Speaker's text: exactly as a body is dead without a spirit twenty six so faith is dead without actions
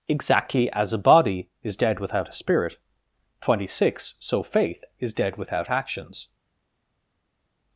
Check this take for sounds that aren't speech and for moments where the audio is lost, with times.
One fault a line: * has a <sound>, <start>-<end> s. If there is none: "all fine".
all fine